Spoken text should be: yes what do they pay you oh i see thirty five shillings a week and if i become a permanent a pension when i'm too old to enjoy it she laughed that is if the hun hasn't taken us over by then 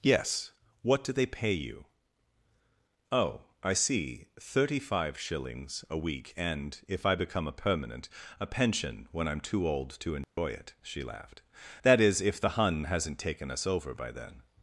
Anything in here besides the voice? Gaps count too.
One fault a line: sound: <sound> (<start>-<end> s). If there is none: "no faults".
sound: dropout (10.2-10.4 s)